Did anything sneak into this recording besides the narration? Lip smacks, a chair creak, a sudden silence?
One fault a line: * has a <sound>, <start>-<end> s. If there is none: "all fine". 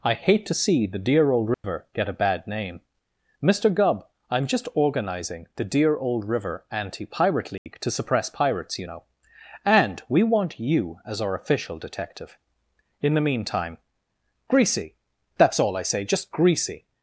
* has a dropout, 1.5-1.6 s
* has a dropout, 7.6-7.7 s